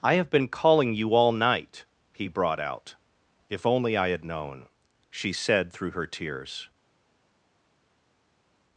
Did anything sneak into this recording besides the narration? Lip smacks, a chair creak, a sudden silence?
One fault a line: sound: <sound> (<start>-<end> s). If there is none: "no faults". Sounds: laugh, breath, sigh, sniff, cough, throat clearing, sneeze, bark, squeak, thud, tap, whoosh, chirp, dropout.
no faults